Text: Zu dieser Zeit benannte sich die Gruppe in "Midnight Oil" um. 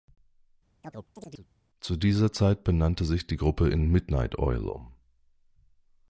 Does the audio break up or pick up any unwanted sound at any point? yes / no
yes